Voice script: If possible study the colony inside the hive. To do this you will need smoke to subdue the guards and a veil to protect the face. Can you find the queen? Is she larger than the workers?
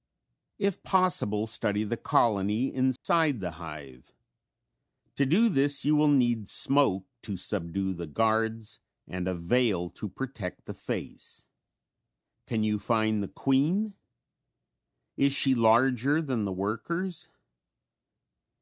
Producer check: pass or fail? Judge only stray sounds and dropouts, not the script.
fail